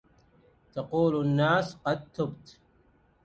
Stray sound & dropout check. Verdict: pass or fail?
pass